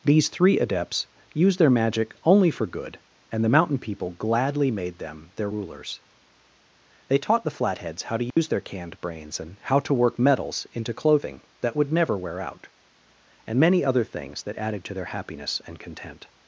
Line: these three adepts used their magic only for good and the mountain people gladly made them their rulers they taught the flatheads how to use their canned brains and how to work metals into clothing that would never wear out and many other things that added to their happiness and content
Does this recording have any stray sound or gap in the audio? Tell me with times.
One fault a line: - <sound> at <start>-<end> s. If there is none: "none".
- dropout at 8.3-8.4 s